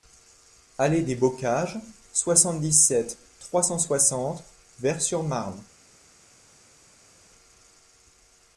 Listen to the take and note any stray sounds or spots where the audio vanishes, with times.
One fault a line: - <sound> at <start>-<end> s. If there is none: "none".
none